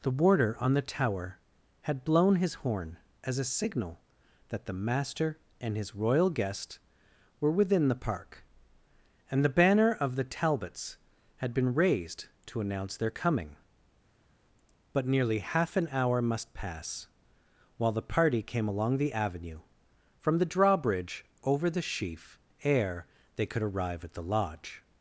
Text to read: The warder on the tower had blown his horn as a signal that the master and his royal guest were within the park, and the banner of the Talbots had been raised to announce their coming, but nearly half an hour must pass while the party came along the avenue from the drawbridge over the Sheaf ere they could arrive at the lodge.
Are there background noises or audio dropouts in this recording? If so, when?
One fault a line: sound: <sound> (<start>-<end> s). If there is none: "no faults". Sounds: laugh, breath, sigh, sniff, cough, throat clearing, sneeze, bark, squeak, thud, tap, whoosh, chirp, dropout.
no faults